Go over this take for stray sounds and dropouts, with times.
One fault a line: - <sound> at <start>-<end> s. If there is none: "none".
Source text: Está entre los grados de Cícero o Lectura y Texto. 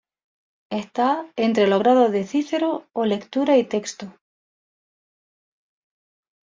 none